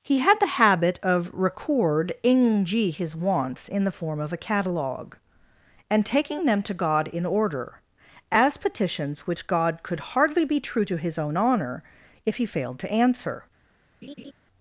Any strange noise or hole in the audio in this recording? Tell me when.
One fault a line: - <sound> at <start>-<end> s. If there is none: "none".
- laugh at 14.0-14.3 s